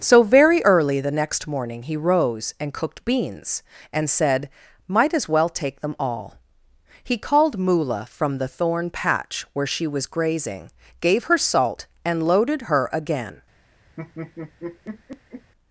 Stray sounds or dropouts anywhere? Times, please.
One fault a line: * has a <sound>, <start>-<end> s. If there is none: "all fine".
* has a laugh, 14.0-15.5 s